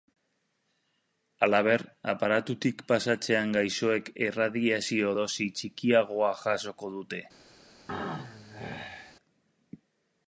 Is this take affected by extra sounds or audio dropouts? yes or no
yes